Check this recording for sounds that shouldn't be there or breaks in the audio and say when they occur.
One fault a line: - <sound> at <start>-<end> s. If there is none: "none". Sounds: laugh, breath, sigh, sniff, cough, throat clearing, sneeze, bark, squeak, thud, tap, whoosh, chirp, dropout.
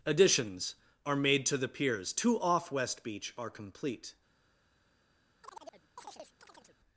- chirp at 5.4-6.8 s